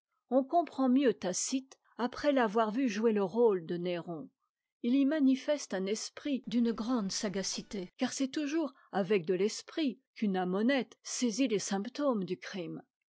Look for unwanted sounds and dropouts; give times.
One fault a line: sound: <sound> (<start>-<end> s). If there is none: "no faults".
no faults